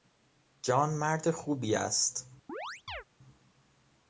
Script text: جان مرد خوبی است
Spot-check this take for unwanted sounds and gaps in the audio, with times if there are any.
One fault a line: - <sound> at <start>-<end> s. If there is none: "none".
- chirp at 2.5-3.0 s